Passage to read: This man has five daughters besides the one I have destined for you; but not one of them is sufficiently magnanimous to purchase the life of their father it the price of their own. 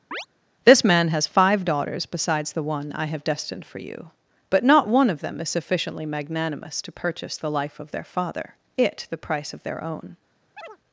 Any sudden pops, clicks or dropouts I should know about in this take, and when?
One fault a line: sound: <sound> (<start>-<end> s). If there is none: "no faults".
sound: chirp (0.1-0.3 s)
sound: chirp (10.6-10.8 s)